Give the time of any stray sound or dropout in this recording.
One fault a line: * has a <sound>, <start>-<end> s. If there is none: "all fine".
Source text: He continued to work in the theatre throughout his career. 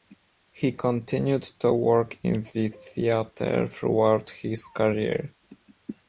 all fine